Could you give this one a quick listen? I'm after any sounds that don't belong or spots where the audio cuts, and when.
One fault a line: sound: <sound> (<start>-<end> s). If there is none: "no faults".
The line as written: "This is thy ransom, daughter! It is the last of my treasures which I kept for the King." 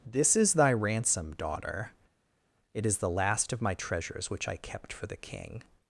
no faults